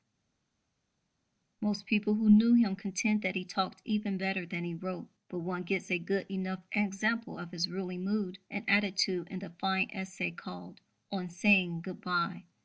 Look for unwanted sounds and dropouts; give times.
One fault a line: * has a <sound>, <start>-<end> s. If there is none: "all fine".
all fine